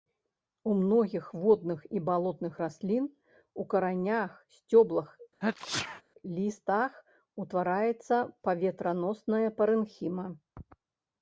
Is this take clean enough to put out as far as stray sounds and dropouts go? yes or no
no